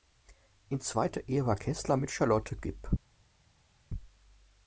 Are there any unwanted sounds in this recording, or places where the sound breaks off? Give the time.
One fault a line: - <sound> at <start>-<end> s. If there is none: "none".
none